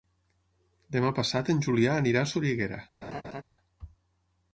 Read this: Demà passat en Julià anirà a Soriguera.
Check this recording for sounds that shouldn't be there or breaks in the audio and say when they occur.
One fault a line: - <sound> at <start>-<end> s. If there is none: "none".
- laugh at 3.0-3.4 s